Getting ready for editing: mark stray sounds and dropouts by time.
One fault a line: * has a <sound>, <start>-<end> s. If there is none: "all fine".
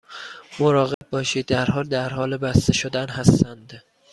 * has a dropout, 0.9-1.0 s